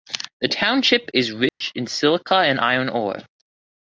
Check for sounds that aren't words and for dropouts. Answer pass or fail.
fail